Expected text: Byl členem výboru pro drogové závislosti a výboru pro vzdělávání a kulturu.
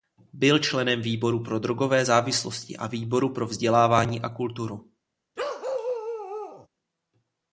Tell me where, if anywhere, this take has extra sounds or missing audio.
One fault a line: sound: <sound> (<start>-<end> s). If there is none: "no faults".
sound: bark (5.4-6.7 s)